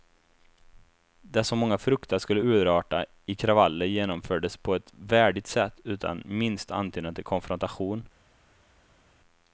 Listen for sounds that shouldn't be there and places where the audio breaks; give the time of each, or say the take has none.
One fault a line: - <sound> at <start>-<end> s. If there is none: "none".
none